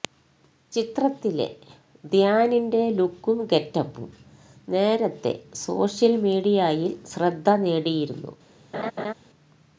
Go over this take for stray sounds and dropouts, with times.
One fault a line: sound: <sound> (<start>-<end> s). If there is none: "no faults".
sound: laugh (8.7-9.1 s)